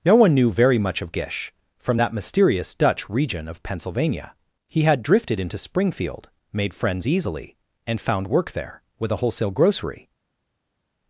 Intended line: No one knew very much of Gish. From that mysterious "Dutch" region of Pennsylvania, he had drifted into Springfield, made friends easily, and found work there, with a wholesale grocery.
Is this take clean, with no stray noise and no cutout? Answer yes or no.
yes